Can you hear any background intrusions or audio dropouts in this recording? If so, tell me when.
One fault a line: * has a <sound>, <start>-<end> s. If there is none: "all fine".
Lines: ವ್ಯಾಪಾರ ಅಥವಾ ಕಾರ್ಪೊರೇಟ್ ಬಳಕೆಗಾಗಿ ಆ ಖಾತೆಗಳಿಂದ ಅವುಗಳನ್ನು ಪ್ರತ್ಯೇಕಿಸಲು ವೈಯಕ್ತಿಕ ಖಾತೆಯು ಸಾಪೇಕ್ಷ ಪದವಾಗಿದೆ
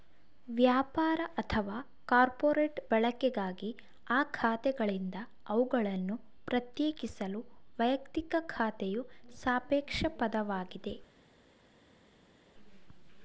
all fine